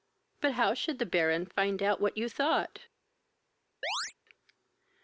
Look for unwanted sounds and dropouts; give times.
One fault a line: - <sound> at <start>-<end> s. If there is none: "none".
- chirp at 3.8-4.1 s